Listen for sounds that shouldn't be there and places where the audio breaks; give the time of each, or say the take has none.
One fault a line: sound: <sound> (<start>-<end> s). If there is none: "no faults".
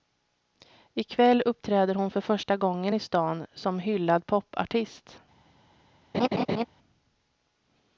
sound: laugh (6.1-6.7 s)